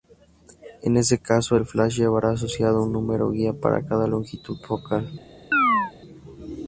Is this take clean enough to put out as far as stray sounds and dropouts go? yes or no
no